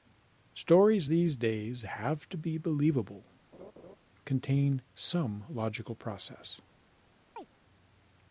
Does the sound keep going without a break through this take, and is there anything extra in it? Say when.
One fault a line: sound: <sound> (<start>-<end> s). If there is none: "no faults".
sound: laugh (3.5-4.0 s)
sound: chirp (7.4-7.5 s)